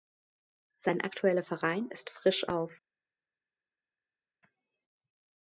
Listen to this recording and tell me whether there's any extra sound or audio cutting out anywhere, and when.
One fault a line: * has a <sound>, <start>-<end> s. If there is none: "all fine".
all fine